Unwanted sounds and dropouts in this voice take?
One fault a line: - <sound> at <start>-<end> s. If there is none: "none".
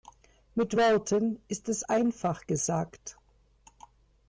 none